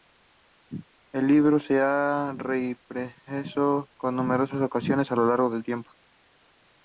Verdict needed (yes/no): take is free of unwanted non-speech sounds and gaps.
yes